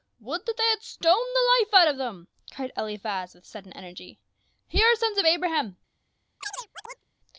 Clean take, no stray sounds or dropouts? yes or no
no